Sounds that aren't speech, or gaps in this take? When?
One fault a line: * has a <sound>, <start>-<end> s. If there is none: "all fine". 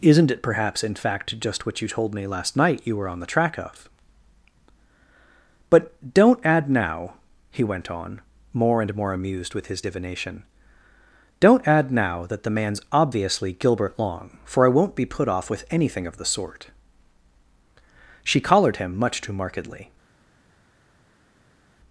all fine